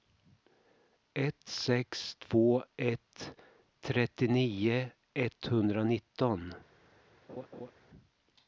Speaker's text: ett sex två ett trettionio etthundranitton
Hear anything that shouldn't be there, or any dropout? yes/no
yes